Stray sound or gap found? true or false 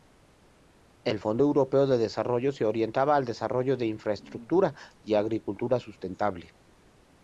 false